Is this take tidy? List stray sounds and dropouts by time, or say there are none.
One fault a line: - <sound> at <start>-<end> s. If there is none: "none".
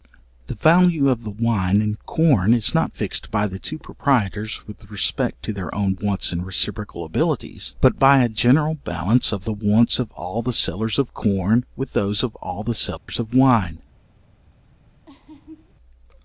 - dropout at 13.0-13.1 s
- laugh at 15.1-15.7 s